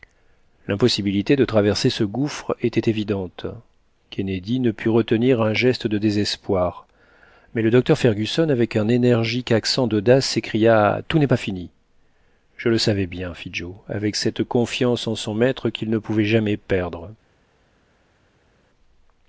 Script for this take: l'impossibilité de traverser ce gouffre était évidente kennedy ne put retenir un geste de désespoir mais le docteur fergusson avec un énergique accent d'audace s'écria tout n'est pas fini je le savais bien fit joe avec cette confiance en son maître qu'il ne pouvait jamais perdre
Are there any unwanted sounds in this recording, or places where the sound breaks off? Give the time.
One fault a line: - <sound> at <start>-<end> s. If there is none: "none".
none